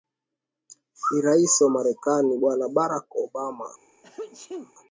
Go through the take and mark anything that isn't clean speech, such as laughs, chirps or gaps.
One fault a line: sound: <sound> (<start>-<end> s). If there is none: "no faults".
sound: sneeze (4.0-4.7 s)